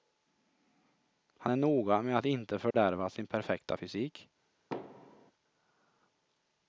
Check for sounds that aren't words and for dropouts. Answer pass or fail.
fail